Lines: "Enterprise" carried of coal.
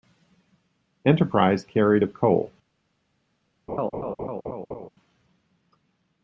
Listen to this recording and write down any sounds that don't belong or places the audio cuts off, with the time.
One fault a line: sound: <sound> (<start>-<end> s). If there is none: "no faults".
sound: laugh (3.7-4.9 s)